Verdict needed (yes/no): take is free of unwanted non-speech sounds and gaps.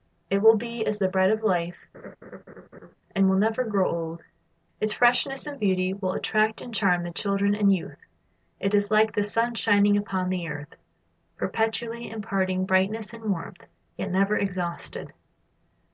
no